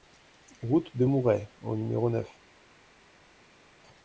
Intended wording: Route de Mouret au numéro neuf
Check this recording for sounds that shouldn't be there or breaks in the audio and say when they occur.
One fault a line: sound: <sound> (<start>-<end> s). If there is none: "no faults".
no faults